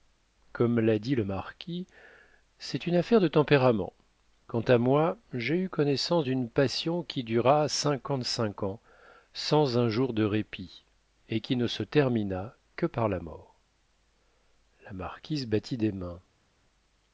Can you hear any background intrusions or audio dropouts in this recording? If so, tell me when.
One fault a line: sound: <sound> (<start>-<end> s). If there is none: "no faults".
no faults